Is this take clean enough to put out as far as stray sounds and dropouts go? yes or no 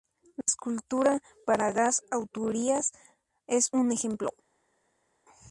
yes